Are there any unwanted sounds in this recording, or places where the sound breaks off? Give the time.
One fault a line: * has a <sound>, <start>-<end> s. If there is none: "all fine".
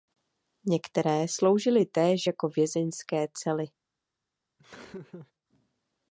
* has a laugh, 4.6-5.3 s